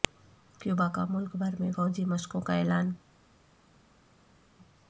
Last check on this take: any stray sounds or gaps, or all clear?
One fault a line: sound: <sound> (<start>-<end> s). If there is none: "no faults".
no faults